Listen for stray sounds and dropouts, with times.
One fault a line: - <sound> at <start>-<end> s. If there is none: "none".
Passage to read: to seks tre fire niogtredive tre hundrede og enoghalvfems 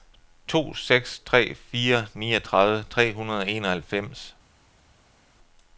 none